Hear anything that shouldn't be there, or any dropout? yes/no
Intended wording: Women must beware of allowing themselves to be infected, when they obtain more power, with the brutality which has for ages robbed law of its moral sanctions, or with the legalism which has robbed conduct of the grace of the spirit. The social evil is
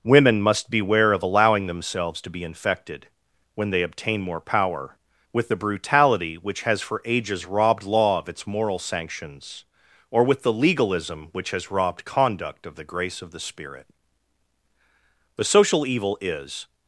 no